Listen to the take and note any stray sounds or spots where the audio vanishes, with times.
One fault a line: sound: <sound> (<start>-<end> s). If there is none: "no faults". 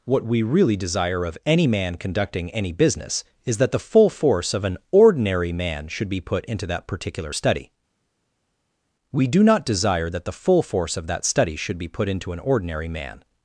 no faults